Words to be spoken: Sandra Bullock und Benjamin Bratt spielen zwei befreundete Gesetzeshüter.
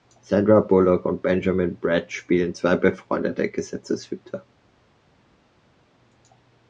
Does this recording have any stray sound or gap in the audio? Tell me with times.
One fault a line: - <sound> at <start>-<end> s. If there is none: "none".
none